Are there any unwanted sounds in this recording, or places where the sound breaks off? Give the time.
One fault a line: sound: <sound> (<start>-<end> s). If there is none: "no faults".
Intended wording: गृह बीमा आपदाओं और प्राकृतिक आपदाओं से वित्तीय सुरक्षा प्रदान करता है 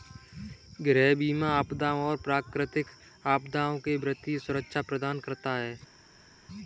no faults